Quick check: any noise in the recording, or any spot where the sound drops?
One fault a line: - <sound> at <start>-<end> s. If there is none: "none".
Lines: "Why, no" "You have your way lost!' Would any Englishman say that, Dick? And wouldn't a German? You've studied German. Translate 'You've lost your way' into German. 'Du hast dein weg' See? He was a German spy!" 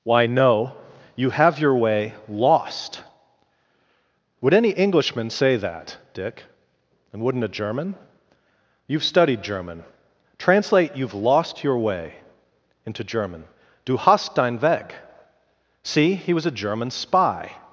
none